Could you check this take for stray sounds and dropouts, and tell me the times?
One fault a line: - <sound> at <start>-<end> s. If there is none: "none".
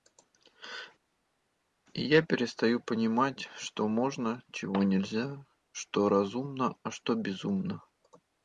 none